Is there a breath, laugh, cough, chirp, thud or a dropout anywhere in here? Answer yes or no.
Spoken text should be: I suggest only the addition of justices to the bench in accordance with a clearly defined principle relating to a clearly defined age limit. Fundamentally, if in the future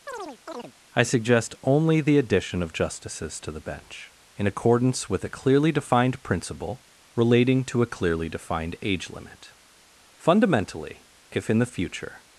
yes